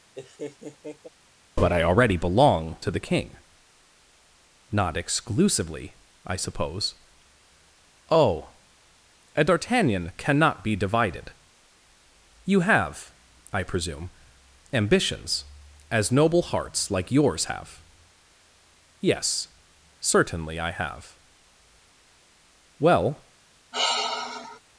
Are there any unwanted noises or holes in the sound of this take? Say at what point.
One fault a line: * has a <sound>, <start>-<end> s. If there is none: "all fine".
* has a laugh, 0.1-1.1 s
* has a sigh, 23.7-24.6 s